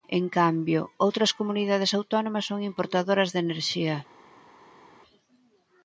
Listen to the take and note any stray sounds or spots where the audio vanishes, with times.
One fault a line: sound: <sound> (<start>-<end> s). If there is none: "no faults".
no faults